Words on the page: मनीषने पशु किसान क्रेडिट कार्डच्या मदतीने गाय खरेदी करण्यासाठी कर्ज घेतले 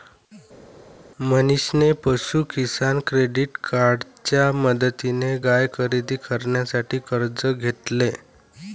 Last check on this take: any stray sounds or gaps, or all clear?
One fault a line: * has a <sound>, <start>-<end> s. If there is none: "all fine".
all fine